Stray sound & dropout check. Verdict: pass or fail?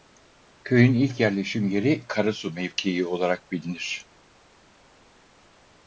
pass